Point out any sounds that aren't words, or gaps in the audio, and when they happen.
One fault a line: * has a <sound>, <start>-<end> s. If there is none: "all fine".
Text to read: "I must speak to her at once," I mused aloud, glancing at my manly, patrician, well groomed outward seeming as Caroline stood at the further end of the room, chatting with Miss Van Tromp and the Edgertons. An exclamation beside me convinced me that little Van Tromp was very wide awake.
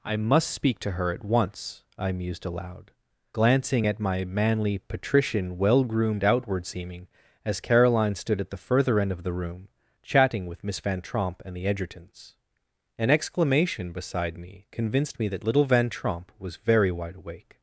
all fine